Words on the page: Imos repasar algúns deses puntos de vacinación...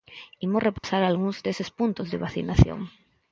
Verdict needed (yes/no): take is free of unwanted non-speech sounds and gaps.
no